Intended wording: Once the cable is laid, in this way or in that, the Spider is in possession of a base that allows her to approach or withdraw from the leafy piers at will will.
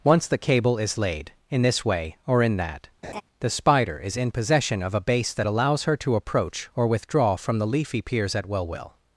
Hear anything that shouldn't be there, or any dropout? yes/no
yes